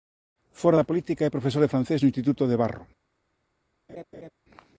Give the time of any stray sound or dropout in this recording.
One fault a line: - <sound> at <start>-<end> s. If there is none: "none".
- laugh at 3.9-4.3 s